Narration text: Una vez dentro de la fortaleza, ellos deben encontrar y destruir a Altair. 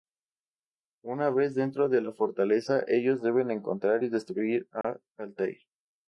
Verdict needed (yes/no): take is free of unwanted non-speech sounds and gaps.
no